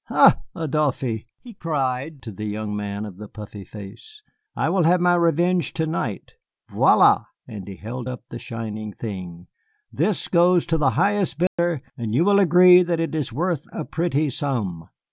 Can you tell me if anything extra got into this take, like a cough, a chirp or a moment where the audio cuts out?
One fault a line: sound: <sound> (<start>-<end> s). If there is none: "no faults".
sound: dropout (11.5-11.6 s)